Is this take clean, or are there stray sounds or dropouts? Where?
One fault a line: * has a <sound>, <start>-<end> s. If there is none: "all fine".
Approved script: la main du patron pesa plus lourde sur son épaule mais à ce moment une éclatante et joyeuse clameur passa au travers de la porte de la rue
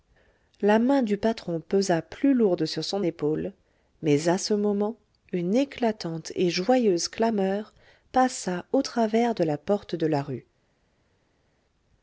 all fine